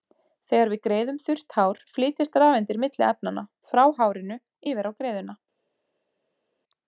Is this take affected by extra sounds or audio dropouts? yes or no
no